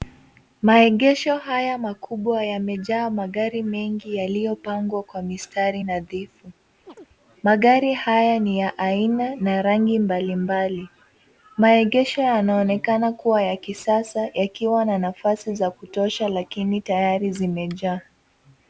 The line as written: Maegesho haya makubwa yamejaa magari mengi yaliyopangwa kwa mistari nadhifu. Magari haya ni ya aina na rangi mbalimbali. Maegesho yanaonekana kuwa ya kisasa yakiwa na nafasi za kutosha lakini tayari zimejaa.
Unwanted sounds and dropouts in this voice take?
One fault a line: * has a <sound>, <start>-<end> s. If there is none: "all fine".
* has a chirp, 6.9-7.1 s